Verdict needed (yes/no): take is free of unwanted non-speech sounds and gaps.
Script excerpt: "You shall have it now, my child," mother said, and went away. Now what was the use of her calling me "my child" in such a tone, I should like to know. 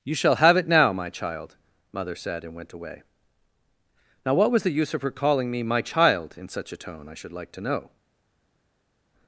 yes